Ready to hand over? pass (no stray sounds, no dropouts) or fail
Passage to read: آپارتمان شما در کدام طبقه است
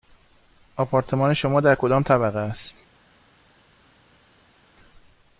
pass